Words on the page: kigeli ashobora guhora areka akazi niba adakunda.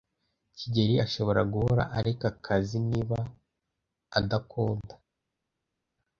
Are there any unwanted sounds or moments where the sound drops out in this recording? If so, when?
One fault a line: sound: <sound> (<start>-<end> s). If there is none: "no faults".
no faults